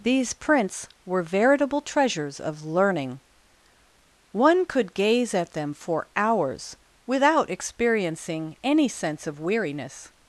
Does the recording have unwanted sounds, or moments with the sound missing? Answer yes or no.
no